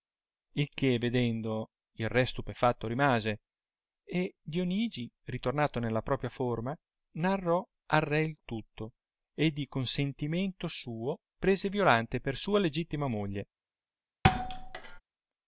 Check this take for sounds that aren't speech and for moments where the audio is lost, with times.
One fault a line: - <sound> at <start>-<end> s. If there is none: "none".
- thud at 14.2-15.0 s